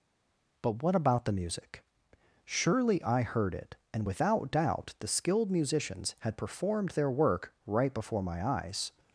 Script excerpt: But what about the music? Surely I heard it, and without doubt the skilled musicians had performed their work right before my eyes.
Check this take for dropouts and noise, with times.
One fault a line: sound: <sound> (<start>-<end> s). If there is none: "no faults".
no faults